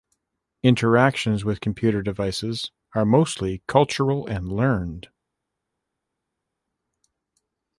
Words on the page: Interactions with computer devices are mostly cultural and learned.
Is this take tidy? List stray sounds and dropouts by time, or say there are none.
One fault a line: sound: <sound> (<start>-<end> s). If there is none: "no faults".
no faults